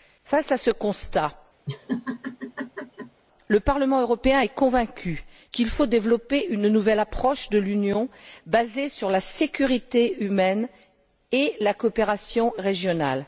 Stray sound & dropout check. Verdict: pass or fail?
fail